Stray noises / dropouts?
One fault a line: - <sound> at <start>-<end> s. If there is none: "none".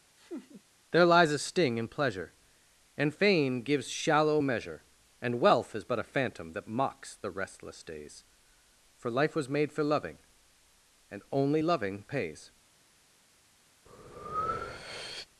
- laugh at 0.2-0.6 s
- breath at 13.9-15.3 s